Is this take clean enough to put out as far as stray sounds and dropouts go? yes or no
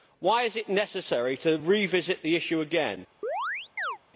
no